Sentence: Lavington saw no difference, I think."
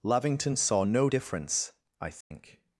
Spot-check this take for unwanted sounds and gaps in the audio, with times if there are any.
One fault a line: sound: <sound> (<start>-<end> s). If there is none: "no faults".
sound: dropout (2.2-2.3 s)